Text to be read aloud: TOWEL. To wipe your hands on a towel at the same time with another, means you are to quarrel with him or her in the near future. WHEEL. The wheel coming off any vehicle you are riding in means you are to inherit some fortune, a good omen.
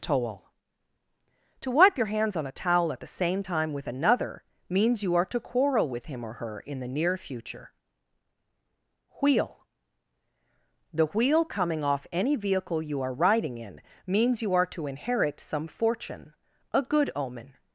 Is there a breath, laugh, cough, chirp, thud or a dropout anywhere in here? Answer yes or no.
no